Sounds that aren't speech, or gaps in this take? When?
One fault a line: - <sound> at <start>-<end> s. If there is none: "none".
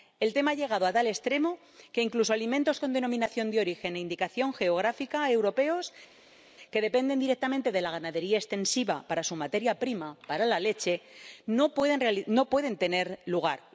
none